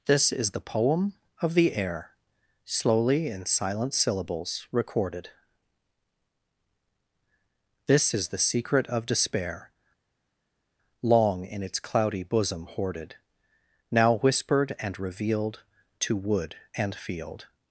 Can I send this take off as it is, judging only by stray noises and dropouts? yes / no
yes